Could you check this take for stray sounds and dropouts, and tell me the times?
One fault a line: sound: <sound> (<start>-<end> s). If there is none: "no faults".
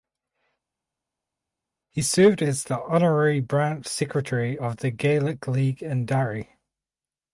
no faults